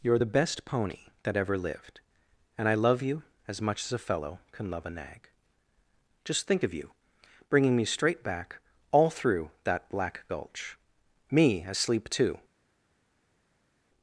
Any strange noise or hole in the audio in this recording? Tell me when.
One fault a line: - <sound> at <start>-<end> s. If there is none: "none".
none